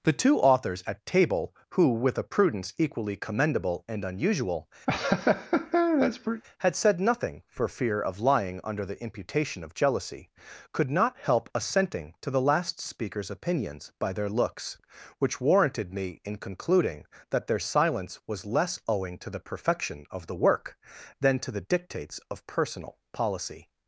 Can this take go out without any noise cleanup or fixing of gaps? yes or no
no